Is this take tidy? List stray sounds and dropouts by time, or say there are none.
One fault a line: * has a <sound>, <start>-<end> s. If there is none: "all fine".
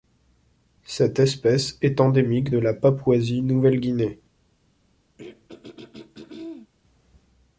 * has a throat clearing, 5.2-6.7 s